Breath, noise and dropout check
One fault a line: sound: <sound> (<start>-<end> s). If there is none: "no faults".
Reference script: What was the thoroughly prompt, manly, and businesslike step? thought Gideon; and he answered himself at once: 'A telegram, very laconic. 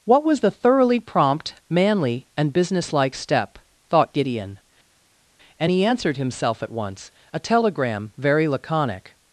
no faults